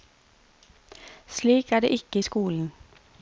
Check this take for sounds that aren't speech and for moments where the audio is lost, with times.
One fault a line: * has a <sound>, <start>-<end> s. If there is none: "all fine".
all fine